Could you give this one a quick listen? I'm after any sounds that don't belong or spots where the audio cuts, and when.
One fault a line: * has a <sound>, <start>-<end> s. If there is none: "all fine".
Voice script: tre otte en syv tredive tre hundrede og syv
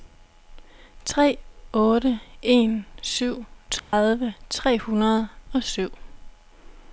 * has a dropout, 3.8-3.9 s